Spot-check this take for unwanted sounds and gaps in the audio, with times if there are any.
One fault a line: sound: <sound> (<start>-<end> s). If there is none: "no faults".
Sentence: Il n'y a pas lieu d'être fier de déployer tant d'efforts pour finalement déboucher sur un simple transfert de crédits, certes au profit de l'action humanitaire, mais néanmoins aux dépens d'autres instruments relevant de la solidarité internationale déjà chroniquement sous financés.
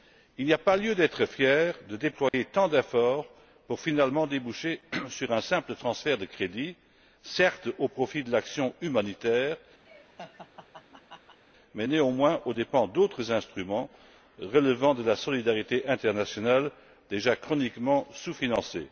sound: dropout (2.3-2.3 s)
sound: laugh (9.8-11.4 s)